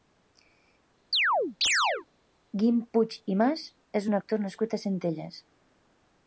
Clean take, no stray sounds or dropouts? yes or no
no